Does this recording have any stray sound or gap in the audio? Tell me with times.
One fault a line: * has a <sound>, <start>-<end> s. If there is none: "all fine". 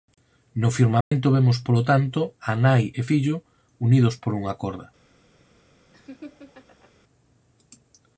* has a dropout, 1.0-1.1 s
* has a laugh, 5.9-6.9 s